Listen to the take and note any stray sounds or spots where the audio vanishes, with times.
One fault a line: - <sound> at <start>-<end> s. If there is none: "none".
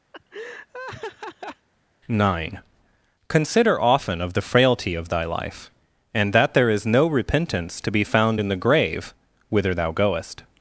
- laugh at 0.1-1.7 s